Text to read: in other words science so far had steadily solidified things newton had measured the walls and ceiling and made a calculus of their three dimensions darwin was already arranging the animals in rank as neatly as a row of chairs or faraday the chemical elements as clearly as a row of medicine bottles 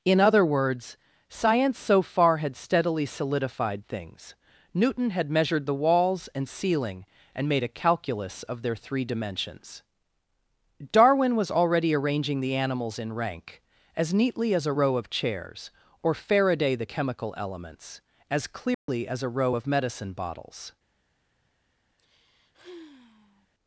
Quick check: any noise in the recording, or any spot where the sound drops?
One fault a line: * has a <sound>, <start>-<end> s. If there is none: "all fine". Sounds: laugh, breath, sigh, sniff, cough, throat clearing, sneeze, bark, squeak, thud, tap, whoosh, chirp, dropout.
* has a dropout, 18.7-18.9 s
* has a sigh, 22.0-23.5 s